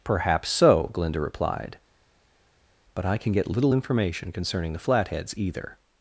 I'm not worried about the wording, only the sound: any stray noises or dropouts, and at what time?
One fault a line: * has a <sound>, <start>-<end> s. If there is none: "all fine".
all fine